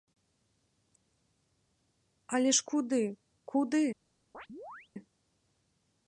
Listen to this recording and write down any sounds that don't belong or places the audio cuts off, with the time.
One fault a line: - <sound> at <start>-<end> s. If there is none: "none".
- chirp at 4.3-4.9 s